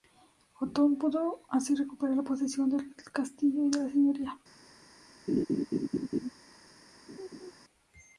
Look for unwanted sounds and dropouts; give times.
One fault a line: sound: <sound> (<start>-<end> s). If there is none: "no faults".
sound: laugh (5.3-6.3 s)
sound: laugh (7.1-7.5 s)